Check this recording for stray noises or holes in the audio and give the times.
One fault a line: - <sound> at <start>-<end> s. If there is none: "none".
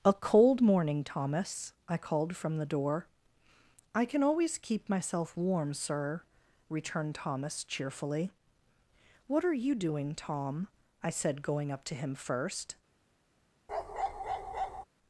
- bark at 13.7-14.8 s